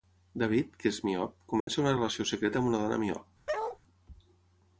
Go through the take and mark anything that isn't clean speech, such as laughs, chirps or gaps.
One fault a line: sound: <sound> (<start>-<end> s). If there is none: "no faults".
sound: dropout (1.6-1.7 s)
sound: bark (3.5-3.8 s)